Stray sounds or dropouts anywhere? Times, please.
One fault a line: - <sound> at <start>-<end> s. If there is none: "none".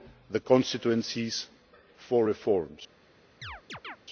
- chirp at 3.4-4.0 s